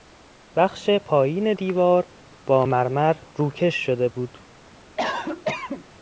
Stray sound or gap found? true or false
true